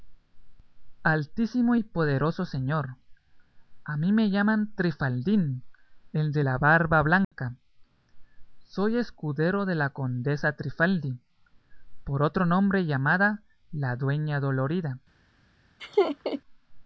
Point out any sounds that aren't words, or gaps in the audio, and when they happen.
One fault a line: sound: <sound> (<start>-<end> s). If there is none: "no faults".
sound: dropout (7.2-7.3 s)
sound: laugh (15.8-16.4 s)